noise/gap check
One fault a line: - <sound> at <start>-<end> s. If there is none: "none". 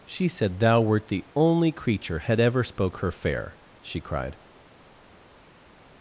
none